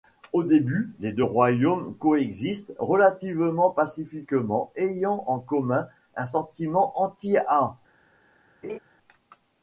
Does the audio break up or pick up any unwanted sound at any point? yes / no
yes